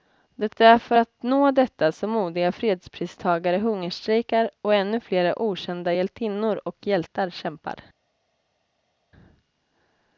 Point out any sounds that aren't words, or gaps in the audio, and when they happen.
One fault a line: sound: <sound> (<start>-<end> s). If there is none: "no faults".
no faults